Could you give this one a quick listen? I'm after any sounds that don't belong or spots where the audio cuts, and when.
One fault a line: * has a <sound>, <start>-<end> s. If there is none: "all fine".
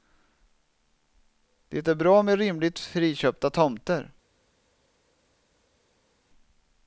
all fine